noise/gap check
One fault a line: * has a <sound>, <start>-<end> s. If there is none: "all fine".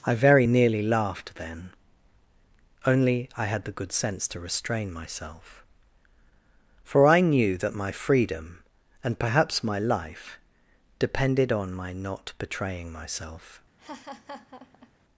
* has a laugh, 13.8-14.9 s